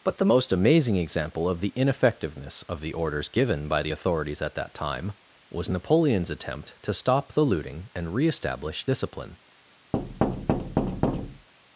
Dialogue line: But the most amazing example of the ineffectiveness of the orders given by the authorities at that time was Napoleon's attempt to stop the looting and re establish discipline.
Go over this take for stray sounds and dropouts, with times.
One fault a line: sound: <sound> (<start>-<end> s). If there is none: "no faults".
sound: thud (9.9-11.5 s)